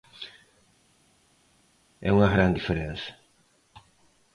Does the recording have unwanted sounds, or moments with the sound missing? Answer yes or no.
no